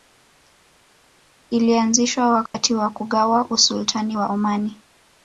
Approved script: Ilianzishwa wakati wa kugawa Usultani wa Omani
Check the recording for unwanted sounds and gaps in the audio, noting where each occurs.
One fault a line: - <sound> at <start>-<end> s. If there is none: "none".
- dropout at 2.5-2.5 s